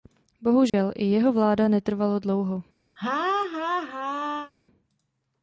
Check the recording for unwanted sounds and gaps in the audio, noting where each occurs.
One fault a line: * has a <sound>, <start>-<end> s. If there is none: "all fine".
* has a dropout, 0.7-0.7 s
* has a laugh, 3.0-4.5 s